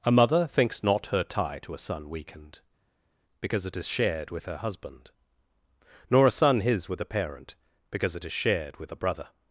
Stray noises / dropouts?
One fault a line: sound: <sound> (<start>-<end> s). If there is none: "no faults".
no faults